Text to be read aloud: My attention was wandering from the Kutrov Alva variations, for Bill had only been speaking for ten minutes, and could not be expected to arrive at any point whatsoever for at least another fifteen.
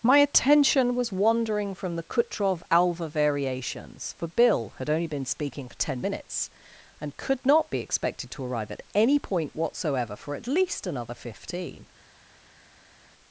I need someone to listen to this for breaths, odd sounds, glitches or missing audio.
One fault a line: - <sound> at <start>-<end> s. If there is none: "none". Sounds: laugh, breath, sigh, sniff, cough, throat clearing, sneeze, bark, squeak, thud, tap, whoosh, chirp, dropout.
none